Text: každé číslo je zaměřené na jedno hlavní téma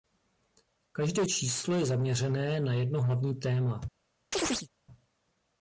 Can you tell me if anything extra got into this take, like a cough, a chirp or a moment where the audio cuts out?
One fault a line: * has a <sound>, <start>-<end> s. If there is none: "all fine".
* has a chirp, 4.3-4.7 s